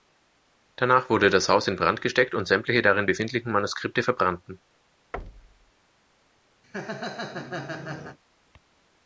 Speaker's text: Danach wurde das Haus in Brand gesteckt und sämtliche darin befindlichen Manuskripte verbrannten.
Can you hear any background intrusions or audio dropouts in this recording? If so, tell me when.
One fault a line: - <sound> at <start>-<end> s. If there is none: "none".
- thud at 5.1-5.7 s
- laugh at 6.6-8.2 s